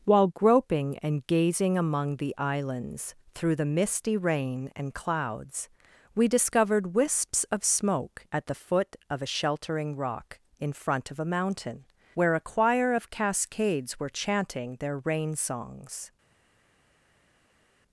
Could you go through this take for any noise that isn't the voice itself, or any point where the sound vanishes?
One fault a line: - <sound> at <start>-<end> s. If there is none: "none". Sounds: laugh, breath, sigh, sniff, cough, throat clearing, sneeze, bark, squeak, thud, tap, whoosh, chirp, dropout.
none